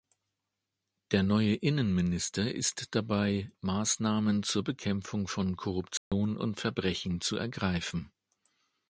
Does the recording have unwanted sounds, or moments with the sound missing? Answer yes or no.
yes